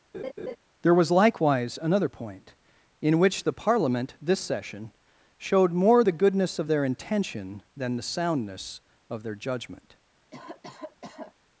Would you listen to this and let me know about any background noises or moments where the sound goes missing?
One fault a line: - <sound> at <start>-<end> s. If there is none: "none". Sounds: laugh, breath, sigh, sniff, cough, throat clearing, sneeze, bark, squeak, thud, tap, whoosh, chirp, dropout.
- laugh at 0.1-0.6 s
- cough at 10.3-11.3 s